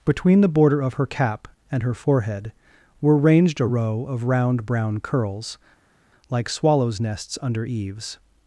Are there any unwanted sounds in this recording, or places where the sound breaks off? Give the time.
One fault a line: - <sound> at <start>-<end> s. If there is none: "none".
none